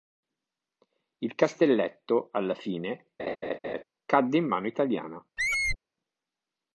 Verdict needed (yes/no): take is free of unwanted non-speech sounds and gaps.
no